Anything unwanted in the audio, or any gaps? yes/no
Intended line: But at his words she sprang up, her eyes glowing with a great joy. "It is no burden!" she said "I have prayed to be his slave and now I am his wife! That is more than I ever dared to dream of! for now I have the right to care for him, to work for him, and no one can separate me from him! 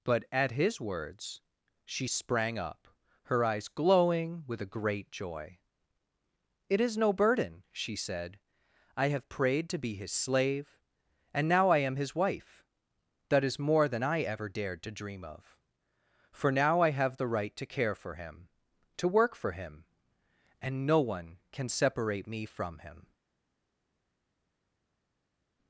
no